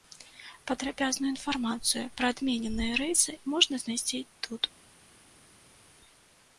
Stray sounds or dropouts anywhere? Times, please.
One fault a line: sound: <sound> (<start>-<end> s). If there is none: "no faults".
no faults